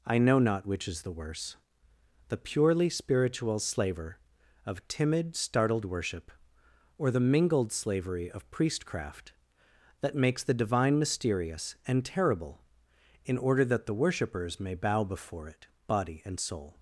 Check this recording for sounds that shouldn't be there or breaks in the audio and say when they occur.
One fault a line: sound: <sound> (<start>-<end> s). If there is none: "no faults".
no faults